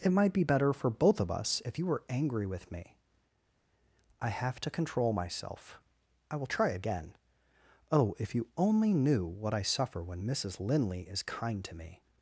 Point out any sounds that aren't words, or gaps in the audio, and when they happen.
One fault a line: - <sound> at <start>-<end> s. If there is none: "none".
none